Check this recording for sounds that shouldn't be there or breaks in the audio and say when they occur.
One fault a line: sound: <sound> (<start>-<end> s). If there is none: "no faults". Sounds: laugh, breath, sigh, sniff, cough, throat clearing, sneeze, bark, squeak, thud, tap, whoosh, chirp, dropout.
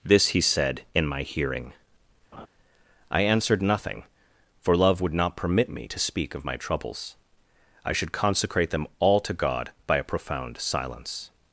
sound: laugh (2.3-2.5 s)